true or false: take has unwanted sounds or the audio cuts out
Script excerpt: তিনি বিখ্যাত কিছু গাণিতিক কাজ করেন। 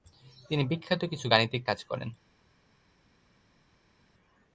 false